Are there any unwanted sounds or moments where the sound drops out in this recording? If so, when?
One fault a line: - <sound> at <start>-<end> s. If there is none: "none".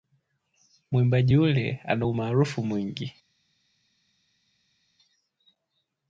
none